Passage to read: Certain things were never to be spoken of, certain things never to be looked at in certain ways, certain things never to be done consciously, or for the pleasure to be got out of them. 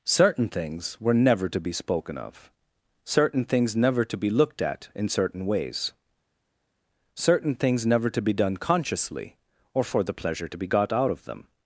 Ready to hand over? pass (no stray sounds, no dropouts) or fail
pass